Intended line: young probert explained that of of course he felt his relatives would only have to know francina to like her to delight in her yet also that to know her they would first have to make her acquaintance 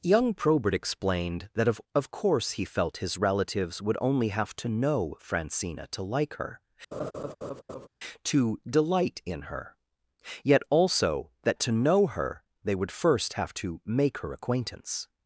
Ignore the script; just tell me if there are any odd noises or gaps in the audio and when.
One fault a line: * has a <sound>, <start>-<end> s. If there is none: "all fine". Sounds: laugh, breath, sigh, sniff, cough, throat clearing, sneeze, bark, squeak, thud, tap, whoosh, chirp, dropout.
* has a laugh, 6.9-7.9 s